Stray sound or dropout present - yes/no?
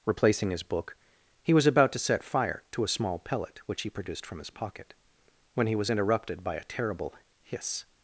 no